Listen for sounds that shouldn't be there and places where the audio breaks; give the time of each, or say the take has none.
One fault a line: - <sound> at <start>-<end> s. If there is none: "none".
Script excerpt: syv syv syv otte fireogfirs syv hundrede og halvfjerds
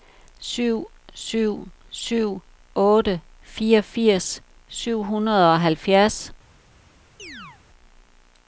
- chirp at 7.2-7.6 s